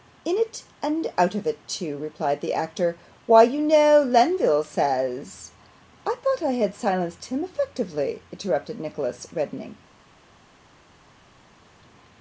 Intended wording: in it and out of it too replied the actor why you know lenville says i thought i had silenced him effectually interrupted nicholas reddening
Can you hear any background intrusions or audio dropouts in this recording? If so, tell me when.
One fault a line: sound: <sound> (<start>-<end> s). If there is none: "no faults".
no faults